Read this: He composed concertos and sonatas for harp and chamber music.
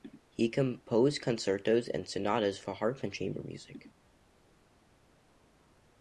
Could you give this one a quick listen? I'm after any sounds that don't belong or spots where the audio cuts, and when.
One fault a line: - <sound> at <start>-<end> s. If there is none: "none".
none